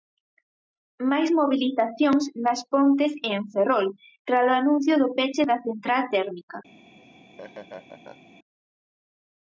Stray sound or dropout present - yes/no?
yes